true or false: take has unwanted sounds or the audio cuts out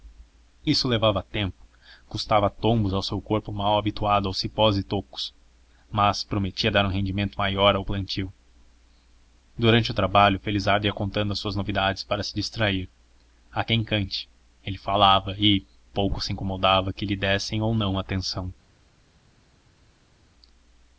false